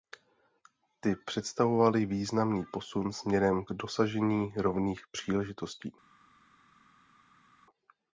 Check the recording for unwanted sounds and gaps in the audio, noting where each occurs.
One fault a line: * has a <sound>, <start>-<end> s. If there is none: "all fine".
all fine